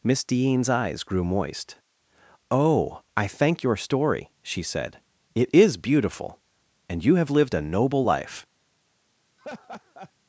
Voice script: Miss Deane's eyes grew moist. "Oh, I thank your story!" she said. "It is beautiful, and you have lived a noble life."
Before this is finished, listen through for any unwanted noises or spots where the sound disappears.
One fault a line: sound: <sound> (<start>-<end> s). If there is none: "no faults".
sound: laugh (9.4-10.1 s)